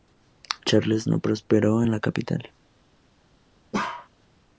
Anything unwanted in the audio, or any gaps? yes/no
yes